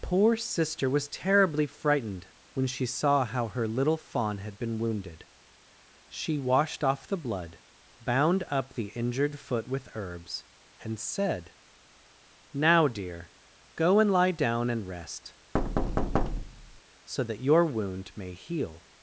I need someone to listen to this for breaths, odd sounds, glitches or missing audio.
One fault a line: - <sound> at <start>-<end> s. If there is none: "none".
- thud at 15.5-16.8 s